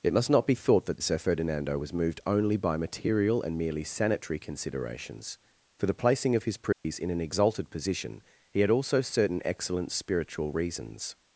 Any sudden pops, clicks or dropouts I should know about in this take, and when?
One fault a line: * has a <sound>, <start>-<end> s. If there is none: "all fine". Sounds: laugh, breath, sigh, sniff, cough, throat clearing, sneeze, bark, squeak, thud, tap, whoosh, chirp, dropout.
* has a dropout, 6.7-6.8 s